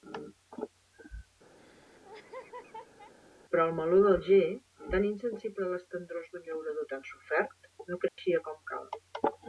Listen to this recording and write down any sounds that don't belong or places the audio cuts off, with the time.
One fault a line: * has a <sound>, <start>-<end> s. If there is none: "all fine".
* has a laugh, 1.6-3.1 s
* has a dropout, 8.1-8.2 s